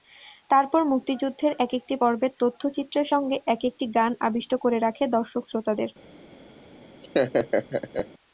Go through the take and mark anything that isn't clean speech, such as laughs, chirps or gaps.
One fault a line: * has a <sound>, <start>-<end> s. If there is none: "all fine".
* has a laugh, 7.0-8.1 s